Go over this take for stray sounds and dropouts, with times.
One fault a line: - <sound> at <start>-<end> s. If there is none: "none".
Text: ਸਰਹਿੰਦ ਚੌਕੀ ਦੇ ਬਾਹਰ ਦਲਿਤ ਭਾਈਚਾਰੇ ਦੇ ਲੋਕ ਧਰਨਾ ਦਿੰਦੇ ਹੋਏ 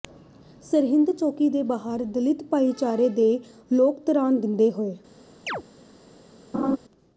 - chirp at 5.5-5.6 s
- laugh at 6.5-6.8 s